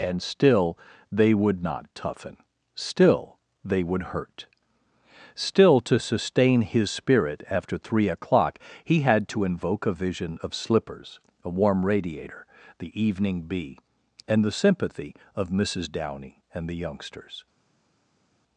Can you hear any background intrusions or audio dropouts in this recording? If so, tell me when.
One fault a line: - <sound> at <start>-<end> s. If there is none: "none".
none